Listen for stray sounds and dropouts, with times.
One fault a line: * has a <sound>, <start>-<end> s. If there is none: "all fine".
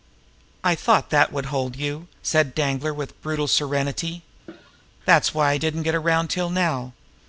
* has a cough, 4.5-4.8 s